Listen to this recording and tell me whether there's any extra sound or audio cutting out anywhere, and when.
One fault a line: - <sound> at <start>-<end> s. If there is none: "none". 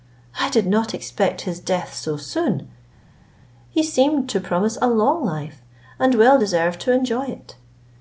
none